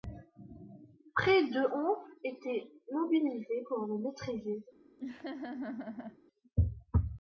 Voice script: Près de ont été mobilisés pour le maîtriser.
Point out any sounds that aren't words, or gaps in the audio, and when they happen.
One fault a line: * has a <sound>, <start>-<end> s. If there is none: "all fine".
* has a laugh, 5.0-6.2 s